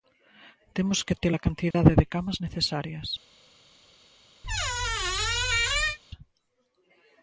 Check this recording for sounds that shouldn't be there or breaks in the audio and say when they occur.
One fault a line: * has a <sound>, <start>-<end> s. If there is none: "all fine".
* has a dropout, 1.7-1.7 s
* has a squeak, 4.4-6.0 s